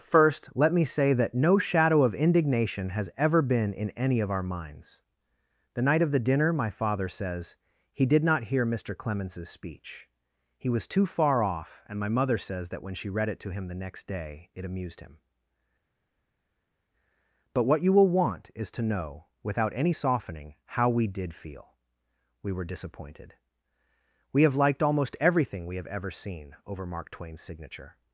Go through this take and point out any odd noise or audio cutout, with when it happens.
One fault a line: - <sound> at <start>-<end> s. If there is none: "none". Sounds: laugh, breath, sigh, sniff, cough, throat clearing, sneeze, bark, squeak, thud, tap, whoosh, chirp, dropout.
none